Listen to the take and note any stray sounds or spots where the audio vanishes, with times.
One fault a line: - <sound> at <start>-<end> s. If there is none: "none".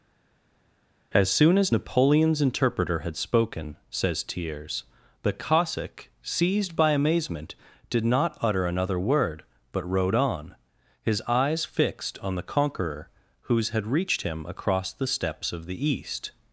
none